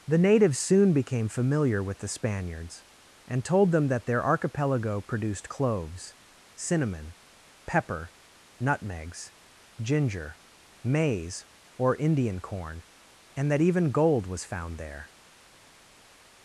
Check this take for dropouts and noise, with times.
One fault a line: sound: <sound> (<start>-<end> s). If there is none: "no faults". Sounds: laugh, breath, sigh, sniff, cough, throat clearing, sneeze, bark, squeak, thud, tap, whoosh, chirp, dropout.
no faults